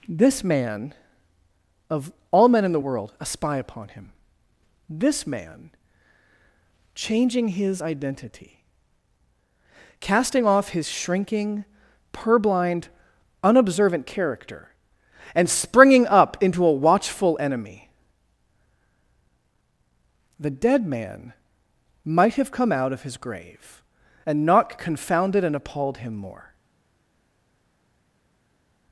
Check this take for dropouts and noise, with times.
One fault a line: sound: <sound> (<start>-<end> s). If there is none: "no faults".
no faults